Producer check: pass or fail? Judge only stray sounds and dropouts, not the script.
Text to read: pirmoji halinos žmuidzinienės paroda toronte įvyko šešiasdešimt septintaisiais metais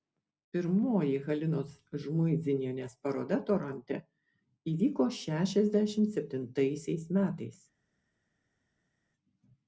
pass